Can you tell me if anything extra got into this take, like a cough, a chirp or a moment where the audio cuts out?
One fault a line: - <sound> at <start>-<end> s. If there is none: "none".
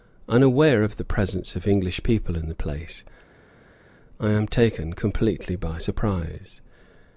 none